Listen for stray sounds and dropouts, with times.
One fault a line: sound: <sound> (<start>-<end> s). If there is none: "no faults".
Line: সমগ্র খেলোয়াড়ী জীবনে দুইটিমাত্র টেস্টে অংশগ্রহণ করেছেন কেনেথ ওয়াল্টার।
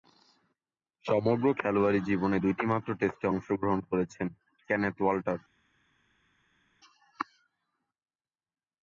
no faults